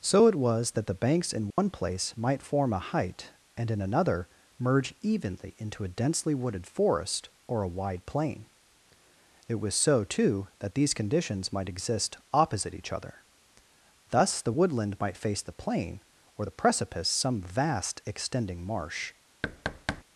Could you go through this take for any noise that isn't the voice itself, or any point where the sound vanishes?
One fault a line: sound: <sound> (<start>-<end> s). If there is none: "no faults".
sound: dropout (1.5-1.6 s)
sound: thud (19.4-20.0 s)